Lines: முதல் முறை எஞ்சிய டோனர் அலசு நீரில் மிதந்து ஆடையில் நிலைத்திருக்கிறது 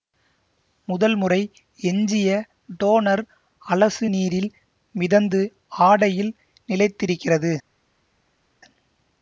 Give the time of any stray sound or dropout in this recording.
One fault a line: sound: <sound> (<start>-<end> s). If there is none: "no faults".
no faults